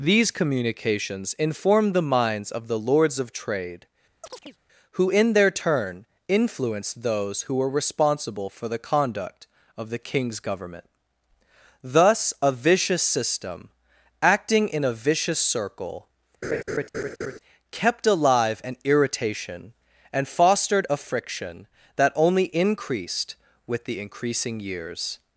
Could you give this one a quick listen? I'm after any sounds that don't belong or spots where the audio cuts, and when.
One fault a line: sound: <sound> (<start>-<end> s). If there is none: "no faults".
sound: chirp (4.2-4.6 s)
sound: laugh (16.4-17.4 s)